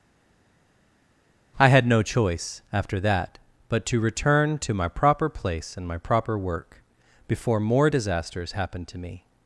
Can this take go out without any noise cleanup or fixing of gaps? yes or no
yes